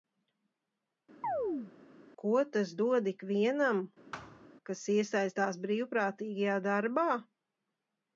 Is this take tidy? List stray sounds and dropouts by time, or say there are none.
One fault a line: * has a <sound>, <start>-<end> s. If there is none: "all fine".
* has a chirp, 1.2-1.7 s
* has a thud, 4.1-4.5 s